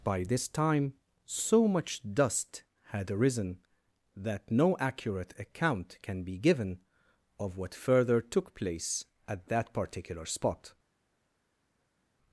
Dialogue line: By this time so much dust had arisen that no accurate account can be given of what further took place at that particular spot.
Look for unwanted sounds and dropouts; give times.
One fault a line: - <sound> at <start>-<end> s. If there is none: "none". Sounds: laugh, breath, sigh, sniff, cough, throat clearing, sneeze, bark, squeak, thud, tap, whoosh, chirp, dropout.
none